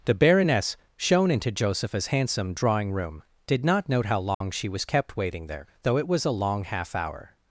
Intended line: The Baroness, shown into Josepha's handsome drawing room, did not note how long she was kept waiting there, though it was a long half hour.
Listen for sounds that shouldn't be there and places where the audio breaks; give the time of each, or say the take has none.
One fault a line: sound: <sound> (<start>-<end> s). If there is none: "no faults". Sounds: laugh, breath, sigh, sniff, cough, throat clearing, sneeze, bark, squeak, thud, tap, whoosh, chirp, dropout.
sound: dropout (4.3-4.4 s)